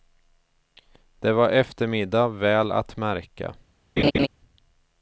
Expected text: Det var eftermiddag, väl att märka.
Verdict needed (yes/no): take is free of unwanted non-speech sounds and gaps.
no